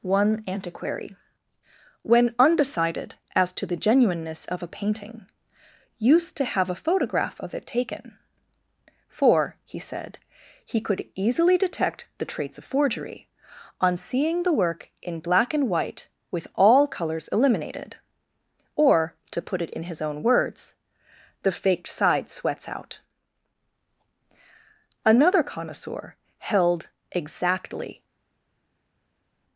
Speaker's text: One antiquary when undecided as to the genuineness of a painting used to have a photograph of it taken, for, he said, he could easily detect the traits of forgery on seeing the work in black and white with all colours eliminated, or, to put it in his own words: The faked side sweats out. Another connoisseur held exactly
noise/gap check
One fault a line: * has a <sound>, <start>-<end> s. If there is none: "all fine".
all fine